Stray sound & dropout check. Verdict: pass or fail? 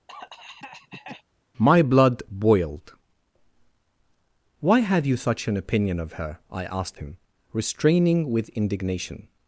fail